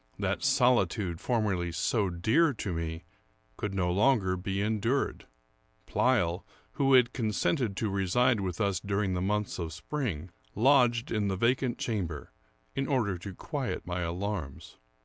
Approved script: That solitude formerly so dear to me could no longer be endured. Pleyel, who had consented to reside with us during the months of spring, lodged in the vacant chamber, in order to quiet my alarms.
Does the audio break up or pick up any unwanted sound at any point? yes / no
no